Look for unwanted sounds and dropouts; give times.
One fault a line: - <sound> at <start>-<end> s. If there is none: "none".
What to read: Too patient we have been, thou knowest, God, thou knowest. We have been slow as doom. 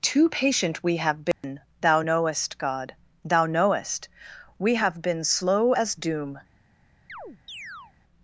- dropout at 1.3-1.4 s
- chirp at 7.1-7.9 s